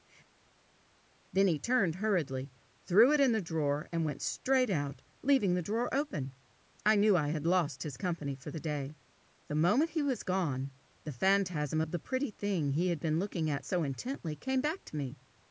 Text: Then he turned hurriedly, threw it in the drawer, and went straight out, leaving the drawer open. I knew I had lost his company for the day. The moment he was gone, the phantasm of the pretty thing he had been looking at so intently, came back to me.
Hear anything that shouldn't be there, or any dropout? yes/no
no